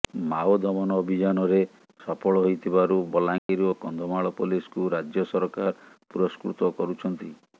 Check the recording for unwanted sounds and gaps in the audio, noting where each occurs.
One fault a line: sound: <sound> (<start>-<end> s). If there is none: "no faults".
sound: dropout (3.4-3.5 s)